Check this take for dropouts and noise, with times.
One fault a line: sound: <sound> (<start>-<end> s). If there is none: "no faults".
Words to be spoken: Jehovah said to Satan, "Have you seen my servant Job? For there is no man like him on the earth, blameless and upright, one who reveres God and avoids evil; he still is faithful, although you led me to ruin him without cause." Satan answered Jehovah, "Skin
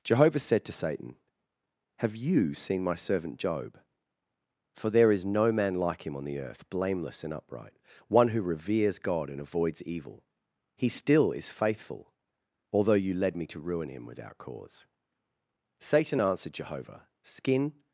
no faults